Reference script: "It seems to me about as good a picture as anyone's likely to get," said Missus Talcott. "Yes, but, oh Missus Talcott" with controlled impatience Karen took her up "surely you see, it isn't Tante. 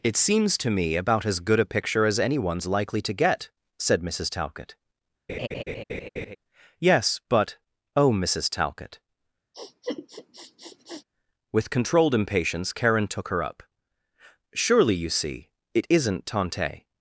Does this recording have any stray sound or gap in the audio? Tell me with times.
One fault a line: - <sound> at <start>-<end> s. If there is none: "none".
- laugh at 5.3-6.4 s
- sniff at 9.5-11.0 s